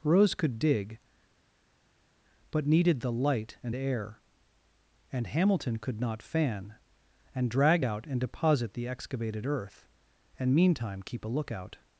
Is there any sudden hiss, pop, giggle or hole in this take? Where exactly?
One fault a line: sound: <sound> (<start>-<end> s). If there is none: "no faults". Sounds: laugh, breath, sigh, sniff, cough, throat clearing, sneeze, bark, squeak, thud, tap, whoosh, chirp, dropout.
no faults